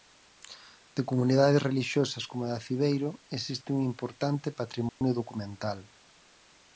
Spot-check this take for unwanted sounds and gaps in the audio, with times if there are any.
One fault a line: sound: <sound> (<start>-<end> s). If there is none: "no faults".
sound: dropout (4.9-5.0 s)